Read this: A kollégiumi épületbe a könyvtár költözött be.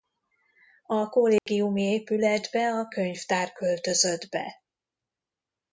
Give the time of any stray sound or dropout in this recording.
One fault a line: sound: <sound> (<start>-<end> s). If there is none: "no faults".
sound: dropout (1.4-1.5 s)